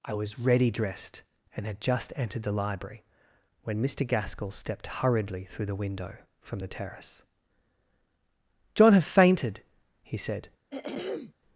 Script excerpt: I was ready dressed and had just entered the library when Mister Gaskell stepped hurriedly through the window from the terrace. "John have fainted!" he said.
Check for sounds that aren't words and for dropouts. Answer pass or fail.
fail